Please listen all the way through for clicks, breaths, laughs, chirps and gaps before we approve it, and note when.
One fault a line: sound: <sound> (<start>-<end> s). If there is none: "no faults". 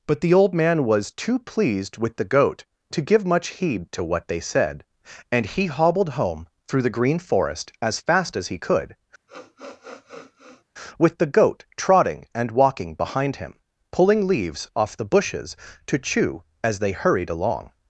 sound: sniff (9.3-10.6 s)